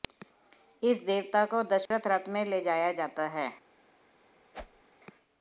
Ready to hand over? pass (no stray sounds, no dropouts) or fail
fail